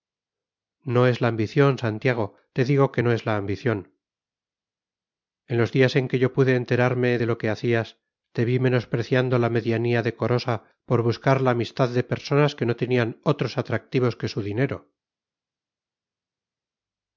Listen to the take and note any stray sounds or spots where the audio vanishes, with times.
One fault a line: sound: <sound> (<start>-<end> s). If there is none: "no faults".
no faults